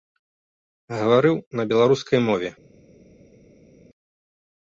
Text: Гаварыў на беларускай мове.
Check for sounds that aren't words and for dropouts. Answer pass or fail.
pass